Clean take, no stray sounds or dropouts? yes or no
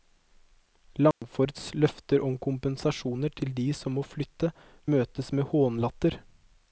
no